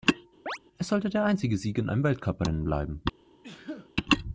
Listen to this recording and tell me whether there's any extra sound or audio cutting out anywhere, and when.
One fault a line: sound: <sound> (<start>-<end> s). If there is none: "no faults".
sound: chirp (0.5-0.6 s)
sound: sneeze (3.4-3.9 s)